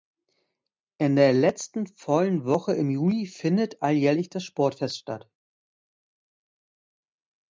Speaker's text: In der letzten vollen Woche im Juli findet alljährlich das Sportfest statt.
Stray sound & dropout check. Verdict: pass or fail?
pass